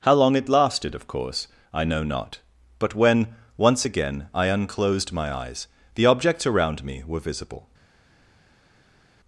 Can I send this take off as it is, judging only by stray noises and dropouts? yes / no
yes